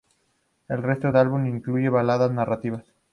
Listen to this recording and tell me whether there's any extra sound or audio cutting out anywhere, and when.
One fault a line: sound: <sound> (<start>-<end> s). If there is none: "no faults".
no faults